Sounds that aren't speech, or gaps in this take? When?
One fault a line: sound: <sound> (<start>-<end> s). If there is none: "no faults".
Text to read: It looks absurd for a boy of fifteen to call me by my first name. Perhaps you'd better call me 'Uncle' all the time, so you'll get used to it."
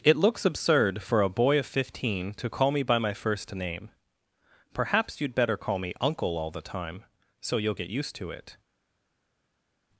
no faults